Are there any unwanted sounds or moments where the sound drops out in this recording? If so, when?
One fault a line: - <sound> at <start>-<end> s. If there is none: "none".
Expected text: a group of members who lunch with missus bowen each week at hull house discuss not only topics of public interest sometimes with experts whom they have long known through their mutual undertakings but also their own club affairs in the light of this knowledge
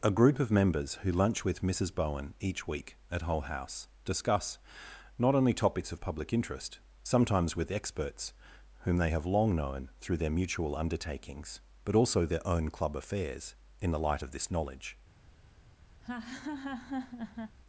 - laugh at 16.0-17.6 s